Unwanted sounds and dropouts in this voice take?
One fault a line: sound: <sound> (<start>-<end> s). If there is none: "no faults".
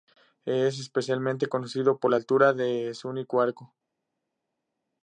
no faults